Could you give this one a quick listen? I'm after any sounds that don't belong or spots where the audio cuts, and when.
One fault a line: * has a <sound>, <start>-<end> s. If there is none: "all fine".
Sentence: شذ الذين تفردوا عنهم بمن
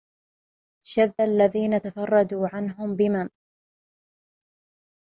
all fine